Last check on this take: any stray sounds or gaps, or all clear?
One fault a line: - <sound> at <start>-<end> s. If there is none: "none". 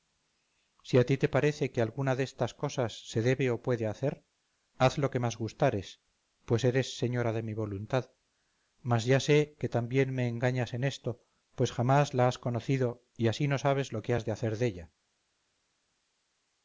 none